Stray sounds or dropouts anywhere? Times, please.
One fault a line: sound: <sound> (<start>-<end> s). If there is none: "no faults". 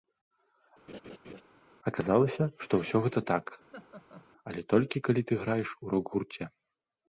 sound: laugh (0.9-1.4 s)
sound: laugh (3.7-4.3 s)